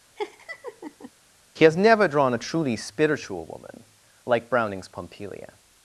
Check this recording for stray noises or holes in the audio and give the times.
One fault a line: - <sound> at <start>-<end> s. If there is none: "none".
- laugh at 0.2-1.1 s